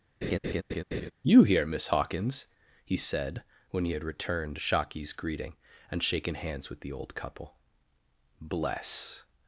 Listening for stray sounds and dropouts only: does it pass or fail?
fail